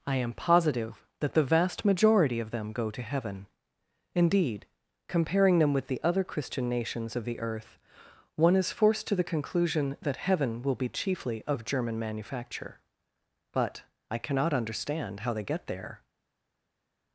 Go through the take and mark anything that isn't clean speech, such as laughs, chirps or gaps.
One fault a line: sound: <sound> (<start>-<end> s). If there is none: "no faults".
no faults